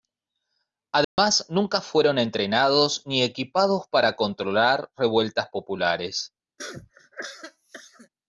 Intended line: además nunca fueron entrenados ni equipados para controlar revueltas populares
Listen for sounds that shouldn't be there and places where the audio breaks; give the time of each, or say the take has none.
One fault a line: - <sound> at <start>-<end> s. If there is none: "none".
- dropout at 1.0-1.2 s
- cough at 6.6-8.1 s